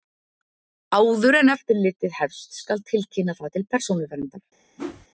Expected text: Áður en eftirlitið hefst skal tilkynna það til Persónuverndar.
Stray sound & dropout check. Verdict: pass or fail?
fail